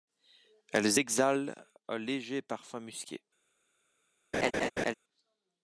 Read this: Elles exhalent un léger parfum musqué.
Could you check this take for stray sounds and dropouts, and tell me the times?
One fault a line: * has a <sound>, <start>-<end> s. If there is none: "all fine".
* has a laugh, 4.3-4.9 s